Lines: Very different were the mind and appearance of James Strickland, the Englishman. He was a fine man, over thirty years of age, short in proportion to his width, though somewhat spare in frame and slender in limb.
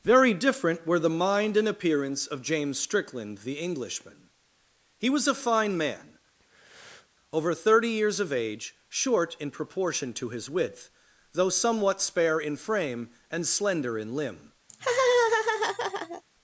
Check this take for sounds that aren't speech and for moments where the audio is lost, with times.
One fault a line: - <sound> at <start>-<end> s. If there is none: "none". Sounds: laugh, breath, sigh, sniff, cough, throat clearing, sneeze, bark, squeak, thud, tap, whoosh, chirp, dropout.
- breath at 6.4-7.1 s
- laugh at 14.7-16.2 s